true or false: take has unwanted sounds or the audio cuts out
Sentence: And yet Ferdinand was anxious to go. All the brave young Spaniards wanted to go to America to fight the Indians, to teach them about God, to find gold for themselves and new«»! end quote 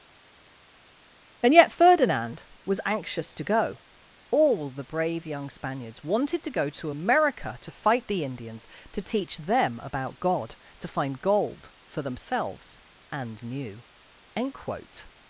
false